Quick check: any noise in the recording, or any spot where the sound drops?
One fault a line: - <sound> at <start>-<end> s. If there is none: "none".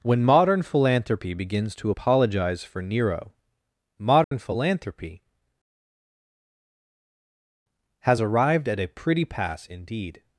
- dropout at 4.2-4.3 s